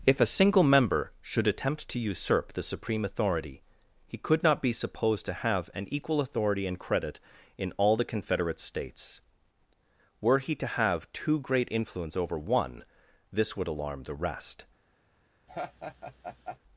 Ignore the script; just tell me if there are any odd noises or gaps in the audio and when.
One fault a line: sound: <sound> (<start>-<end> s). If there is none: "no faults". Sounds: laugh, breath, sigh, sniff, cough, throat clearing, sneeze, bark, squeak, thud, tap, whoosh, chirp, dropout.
sound: laugh (15.5-16.6 s)